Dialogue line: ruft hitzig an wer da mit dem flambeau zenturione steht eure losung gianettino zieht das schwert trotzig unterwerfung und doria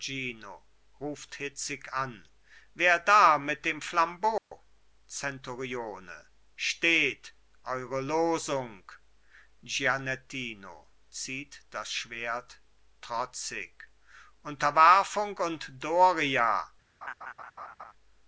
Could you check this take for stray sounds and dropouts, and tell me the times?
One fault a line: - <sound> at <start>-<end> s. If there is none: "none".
- dropout at 4.4-4.5 s
- laugh at 17.0-17.9 s